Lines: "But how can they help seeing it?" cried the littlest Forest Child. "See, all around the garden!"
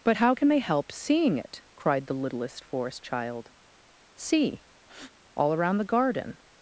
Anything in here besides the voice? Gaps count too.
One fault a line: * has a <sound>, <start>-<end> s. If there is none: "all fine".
* has a breath, 4.8-5.1 s